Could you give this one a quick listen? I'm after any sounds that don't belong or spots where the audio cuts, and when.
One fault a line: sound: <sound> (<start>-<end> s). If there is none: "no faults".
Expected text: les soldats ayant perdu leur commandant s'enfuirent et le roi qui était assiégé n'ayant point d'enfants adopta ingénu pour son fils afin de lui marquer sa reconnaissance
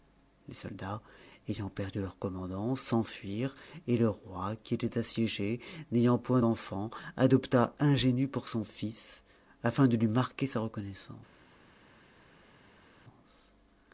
no faults